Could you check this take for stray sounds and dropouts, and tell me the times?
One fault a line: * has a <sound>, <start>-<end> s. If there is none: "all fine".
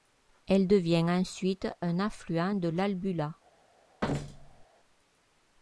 * has a thud, 4.0-4.7 s